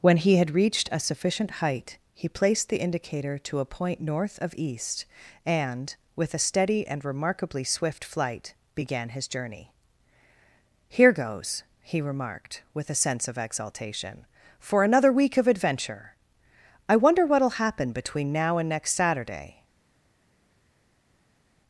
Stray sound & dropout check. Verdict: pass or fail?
pass